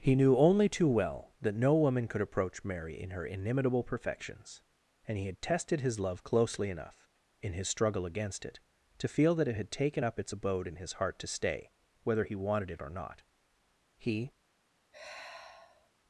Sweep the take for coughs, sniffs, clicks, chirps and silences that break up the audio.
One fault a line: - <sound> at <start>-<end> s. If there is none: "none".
- sigh at 14.9-15.9 s